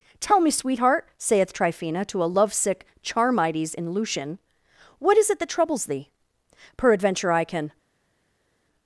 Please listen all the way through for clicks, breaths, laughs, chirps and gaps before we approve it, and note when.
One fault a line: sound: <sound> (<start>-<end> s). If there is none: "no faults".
no faults